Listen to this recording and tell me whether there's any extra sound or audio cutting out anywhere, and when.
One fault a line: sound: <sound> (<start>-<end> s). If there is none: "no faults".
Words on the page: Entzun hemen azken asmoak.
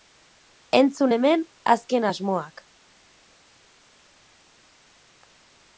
no faults